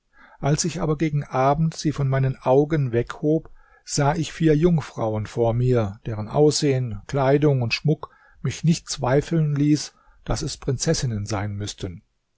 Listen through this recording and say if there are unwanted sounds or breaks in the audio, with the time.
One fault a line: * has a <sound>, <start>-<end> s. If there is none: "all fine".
all fine